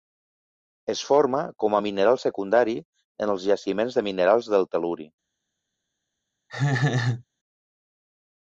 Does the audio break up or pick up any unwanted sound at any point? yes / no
yes